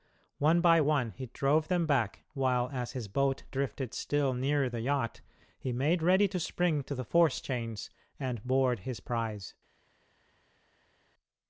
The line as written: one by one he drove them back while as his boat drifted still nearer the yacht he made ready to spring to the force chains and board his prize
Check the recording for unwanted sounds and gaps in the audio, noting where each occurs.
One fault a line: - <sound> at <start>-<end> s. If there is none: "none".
none